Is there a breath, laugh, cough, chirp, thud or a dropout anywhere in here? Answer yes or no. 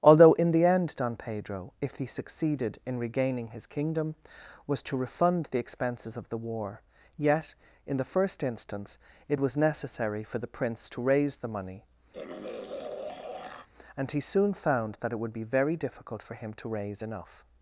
yes